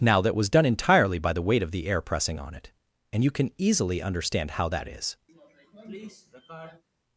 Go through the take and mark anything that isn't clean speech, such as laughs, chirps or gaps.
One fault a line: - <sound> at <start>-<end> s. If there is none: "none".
- sniff at 5.3-6.8 s